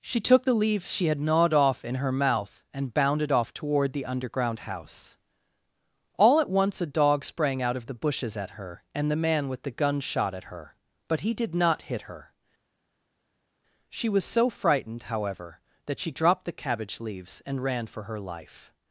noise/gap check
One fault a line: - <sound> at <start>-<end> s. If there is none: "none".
none